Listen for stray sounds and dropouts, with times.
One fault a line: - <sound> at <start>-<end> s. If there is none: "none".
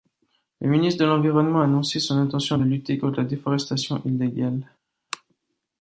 none